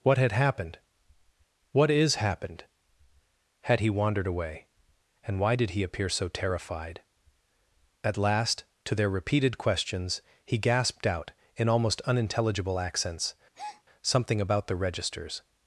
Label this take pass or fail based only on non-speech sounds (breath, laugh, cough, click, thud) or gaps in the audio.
fail